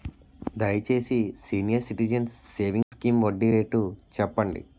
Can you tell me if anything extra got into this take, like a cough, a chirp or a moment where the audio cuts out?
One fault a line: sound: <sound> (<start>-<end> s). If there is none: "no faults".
sound: dropout (2.8-2.9 s)